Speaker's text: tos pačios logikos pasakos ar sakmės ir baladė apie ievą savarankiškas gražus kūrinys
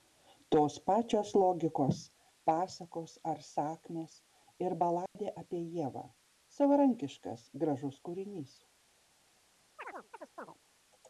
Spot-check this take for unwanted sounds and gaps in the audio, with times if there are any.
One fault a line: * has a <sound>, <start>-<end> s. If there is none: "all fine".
* has a dropout, 5.1-5.2 s
* has a chirp, 9.8-10.6 s